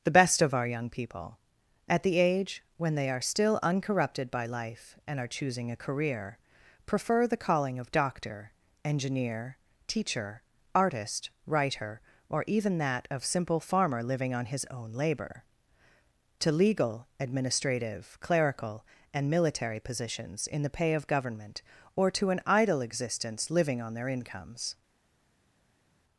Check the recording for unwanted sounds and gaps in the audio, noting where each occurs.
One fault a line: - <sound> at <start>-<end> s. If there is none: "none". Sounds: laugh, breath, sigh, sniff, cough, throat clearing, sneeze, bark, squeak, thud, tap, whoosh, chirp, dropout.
none